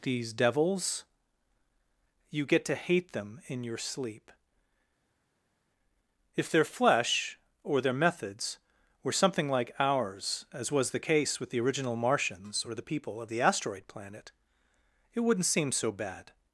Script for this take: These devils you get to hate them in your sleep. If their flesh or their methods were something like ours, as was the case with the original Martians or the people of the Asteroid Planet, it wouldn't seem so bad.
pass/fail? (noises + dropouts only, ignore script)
pass